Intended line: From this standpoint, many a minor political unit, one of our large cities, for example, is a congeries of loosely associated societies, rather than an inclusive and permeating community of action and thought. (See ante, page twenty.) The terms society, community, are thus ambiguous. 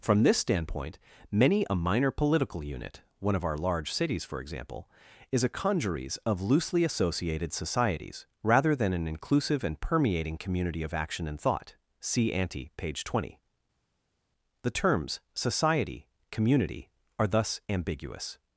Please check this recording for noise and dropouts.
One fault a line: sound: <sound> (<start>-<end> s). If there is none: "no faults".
no faults